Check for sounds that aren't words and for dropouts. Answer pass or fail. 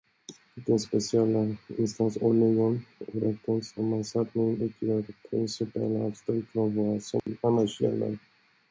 fail